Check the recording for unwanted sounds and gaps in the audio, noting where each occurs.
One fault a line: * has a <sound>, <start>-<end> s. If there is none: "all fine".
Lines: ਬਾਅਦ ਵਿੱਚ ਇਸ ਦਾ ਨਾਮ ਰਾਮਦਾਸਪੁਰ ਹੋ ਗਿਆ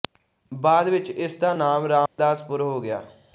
* has a dropout, 2.1-2.2 s